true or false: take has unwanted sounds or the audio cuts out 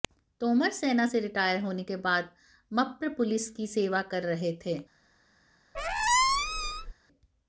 true